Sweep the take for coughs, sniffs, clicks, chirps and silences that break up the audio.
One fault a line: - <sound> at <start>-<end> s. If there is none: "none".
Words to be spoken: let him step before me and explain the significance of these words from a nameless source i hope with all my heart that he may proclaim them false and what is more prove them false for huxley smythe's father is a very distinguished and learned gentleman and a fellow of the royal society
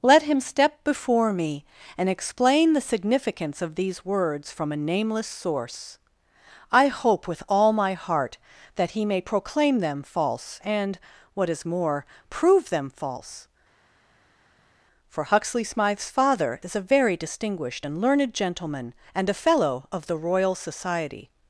none